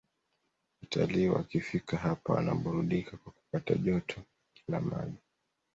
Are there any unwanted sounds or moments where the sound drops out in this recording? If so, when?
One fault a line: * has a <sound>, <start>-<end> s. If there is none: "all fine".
all fine